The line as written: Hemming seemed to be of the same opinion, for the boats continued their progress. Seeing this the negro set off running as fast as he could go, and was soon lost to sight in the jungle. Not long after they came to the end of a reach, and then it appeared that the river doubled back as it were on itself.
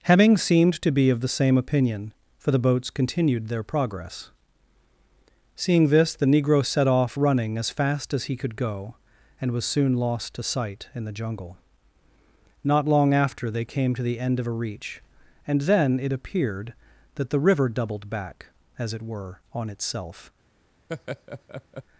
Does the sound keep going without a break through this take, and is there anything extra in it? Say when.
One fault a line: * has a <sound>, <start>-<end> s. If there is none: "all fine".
* has a laugh, 20.9-21.8 s